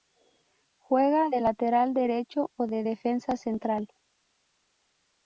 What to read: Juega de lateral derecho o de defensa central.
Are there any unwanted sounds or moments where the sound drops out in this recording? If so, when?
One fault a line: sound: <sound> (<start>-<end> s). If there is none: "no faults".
no faults